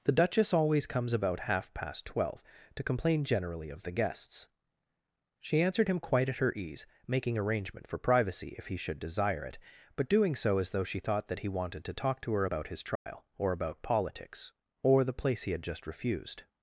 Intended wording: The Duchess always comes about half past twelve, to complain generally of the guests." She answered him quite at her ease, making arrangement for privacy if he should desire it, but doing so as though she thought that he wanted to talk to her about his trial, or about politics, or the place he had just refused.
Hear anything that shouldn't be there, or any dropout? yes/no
yes